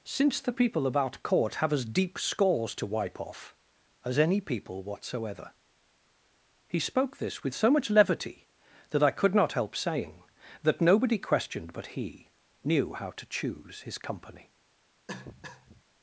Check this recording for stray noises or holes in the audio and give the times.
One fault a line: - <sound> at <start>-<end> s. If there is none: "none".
- cough at 15.1-15.8 s